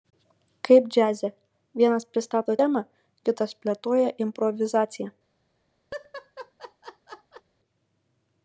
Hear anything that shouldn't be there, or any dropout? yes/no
yes